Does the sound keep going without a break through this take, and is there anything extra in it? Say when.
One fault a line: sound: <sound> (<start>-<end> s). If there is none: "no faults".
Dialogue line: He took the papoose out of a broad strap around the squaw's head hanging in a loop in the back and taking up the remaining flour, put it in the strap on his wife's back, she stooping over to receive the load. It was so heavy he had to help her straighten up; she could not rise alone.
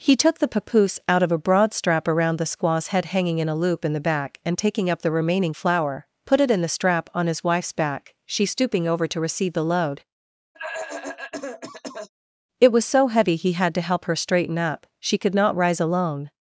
sound: cough (10.5-12.1 s)